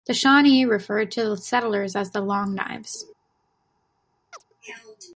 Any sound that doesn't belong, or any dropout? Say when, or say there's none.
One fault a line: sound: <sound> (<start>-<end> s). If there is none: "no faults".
sound: chirp (4.3-4.4 s)